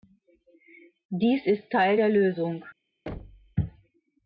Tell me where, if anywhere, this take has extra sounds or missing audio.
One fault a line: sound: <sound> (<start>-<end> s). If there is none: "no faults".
sound: thud (3.1-3.6 s)